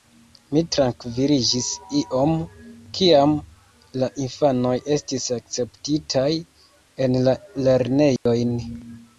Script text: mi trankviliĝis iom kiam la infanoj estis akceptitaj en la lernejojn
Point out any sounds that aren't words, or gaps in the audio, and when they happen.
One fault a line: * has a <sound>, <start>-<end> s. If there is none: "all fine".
* has a dropout, 8.2-8.3 s